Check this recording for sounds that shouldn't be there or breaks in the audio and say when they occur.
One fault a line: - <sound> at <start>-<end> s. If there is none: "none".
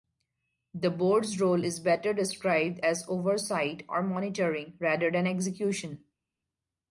none